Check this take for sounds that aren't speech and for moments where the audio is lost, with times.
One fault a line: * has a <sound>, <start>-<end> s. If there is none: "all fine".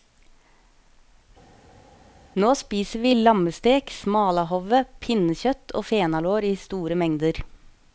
all fine